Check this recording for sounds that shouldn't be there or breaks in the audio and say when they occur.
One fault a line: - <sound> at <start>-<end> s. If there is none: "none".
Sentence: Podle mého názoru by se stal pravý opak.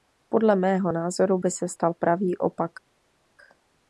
none